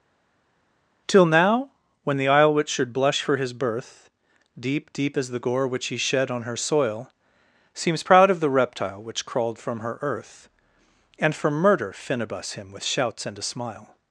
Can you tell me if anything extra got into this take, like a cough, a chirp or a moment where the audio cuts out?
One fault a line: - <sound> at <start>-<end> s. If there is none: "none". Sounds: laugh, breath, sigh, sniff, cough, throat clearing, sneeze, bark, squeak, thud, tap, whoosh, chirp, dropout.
none